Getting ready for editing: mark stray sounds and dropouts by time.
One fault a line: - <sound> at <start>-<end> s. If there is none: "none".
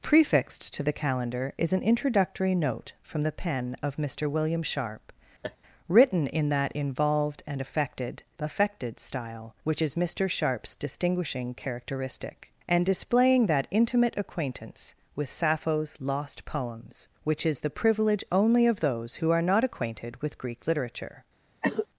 - laugh at 5.4-5.6 s
- cough at 21.6-21.9 s